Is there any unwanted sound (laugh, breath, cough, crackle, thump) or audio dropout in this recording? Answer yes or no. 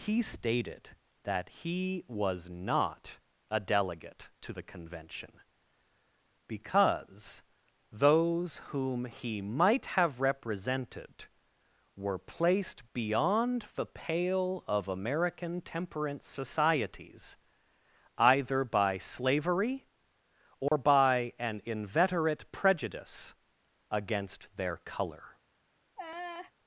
yes